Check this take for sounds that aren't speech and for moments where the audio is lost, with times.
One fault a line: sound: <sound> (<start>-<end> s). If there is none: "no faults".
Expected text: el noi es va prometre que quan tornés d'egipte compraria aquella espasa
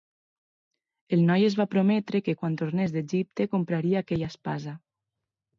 no faults